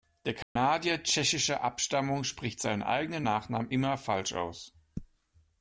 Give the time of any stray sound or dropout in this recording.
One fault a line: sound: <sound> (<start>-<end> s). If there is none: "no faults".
sound: dropout (0.4-0.6 s)